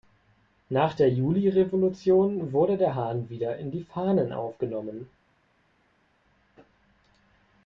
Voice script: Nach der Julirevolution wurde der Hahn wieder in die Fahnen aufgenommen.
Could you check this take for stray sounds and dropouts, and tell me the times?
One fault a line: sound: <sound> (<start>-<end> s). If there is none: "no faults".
no faults